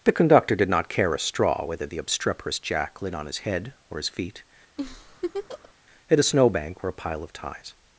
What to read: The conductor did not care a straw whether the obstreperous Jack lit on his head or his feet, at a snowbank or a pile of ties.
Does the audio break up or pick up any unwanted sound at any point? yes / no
yes